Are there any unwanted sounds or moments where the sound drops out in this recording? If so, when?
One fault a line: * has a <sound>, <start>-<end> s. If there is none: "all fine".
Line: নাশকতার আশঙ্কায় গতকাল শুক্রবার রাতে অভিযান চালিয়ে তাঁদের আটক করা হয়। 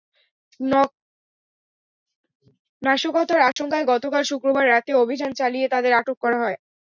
* has a dropout, 3.5-3.6 s